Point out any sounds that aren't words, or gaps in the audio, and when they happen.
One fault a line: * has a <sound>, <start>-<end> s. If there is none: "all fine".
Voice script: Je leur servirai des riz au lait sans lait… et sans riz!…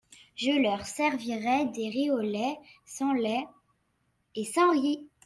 all fine